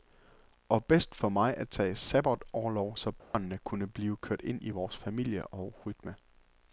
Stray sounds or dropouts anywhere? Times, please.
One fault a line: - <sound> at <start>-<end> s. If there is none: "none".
- dropout at 3.2-3.3 s